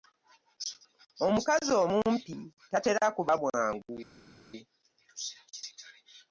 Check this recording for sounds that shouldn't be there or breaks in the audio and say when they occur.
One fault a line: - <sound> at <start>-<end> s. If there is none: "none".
none